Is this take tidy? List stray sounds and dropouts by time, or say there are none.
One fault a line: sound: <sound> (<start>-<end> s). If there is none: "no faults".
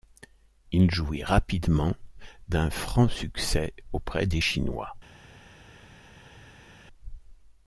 no faults